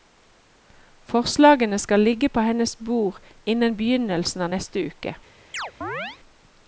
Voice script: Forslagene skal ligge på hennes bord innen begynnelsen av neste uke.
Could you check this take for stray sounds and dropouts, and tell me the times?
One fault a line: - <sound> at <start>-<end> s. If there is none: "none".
- chirp at 5.5-6.2 s